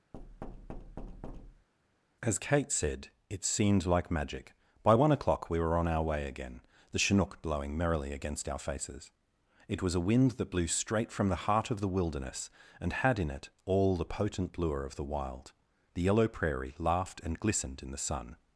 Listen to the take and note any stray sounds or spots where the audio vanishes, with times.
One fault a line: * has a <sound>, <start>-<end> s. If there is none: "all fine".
* has a thud, 0.1-1.7 s